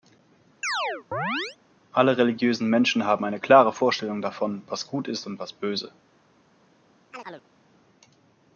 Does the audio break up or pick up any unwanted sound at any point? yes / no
yes